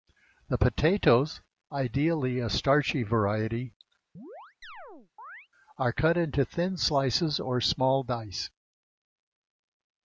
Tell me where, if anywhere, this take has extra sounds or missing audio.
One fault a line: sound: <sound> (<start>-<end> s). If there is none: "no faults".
sound: chirp (4.1-5.5 s)